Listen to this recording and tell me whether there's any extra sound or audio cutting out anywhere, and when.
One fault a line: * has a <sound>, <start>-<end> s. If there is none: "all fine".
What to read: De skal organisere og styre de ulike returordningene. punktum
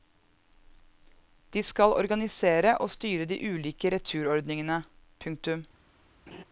* has a laugh, 6.3-6.4 s